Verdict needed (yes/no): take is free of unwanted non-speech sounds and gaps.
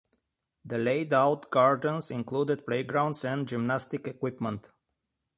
yes